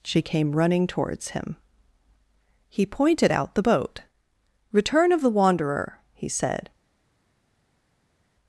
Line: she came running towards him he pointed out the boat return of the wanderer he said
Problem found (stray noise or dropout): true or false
false